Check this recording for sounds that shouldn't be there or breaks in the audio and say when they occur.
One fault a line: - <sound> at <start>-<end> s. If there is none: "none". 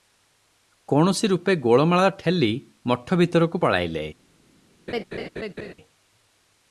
- laugh at 4.9-5.7 s